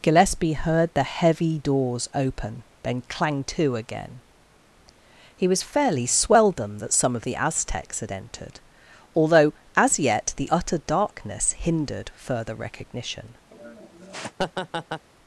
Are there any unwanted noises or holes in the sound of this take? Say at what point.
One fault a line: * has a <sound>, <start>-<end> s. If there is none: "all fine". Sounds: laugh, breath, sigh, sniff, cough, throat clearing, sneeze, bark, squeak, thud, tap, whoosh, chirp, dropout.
* has a laugh, 13.5-15.1 s